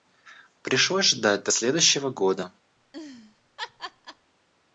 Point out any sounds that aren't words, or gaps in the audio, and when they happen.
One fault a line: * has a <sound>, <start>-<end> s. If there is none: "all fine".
* has a laugh, 2.8-4.3 s